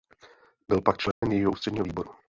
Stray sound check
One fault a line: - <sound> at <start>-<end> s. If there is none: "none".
- dropout at 1.1-1.2 s